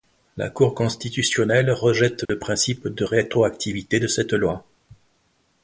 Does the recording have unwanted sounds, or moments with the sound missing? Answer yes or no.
yes